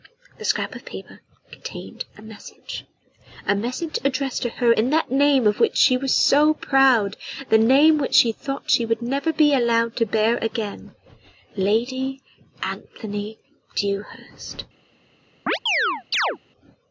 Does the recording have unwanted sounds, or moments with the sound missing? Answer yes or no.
yes